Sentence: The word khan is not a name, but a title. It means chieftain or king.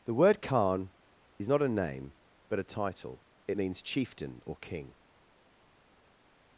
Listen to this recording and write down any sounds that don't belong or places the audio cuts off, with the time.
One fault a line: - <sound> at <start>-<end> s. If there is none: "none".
none